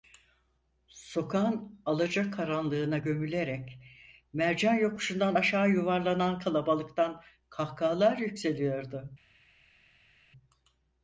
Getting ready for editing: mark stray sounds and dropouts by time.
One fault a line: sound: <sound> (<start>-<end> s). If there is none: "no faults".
no faults